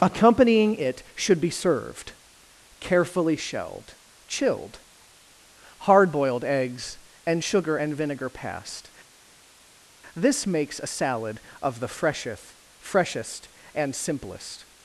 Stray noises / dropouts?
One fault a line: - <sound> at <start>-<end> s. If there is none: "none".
none